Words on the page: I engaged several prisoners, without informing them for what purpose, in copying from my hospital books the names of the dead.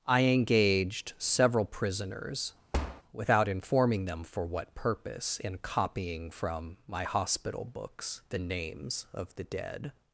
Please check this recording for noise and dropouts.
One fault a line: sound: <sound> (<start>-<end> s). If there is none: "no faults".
sound: thud (2.7-3.0 s)